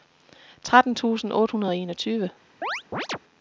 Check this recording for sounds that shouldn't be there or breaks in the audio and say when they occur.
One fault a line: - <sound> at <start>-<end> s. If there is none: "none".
- chirp at 2.6-3.2 s